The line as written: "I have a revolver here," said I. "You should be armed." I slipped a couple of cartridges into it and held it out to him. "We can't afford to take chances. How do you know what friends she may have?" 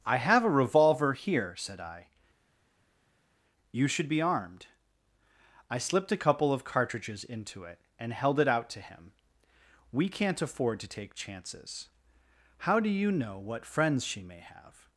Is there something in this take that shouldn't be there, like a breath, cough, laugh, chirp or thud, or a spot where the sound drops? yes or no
no